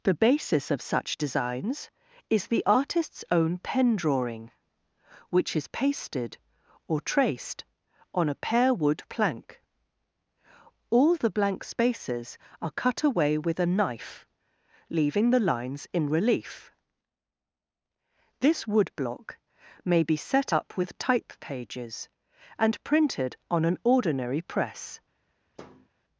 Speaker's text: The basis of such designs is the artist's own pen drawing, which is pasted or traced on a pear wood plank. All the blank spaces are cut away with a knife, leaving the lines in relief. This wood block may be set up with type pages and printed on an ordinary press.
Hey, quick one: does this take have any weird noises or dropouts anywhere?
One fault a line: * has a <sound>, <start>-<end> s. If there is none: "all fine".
* has a thud, 25.6-25.9 s